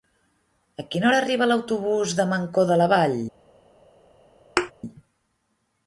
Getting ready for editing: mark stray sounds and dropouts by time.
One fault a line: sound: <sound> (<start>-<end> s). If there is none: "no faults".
sound: thud (4.6-4.7 s)